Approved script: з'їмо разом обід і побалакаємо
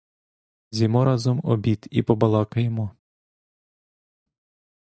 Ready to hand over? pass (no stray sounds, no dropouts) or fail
pass